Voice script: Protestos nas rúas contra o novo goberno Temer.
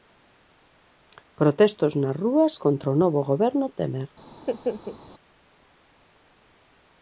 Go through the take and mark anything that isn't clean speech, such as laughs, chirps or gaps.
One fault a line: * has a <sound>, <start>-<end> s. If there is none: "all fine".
* has a laugh, 4.3-5.0 s